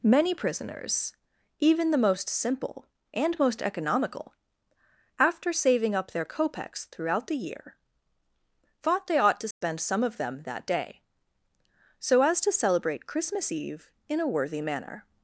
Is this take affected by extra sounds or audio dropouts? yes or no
yes